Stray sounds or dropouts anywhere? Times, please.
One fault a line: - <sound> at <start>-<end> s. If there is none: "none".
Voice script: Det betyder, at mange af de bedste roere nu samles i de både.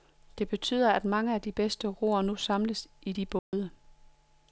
- dropout at 3.4-3.5 s